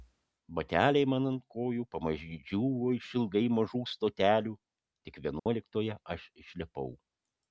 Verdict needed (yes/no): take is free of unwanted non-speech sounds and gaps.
no